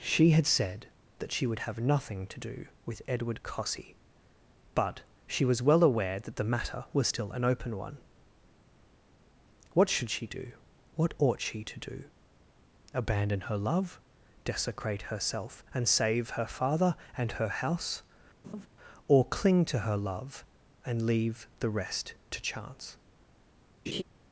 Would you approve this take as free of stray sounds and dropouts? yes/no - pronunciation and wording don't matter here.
no